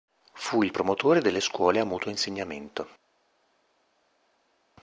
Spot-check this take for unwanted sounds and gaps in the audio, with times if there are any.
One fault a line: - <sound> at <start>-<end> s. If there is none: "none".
none